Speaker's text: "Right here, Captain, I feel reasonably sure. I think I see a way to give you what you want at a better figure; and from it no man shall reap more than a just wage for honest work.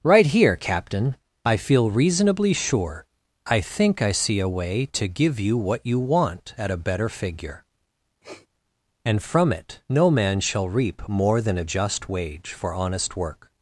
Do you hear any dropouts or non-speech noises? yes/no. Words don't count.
yes